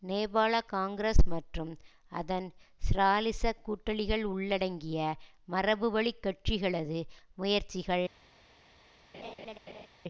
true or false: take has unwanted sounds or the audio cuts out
true